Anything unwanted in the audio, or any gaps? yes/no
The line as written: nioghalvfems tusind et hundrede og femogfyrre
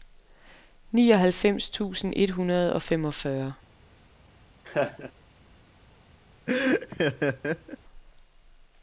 yes